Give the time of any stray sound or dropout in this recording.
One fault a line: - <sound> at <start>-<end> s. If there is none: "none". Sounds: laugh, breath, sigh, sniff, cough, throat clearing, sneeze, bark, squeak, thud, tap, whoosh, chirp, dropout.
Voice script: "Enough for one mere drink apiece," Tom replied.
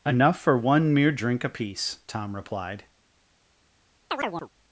- chirp at 4.1-4.5 s